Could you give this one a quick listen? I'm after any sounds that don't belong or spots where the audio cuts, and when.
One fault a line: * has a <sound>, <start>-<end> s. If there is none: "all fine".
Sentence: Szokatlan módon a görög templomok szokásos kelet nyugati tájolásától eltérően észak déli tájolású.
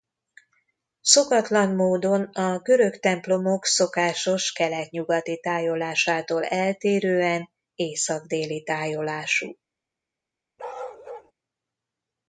* has a bark, 10.6-11.3 s